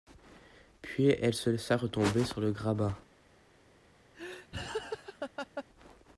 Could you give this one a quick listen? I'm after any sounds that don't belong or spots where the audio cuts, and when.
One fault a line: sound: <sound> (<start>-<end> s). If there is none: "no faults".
sound: laugh (4.1-5.6 s)